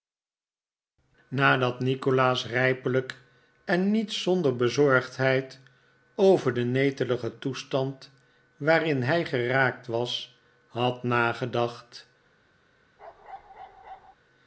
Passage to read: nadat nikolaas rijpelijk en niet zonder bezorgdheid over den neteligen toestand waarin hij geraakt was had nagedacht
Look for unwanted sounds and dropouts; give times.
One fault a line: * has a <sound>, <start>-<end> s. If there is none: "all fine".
* has a bark, 13.0-14.1 s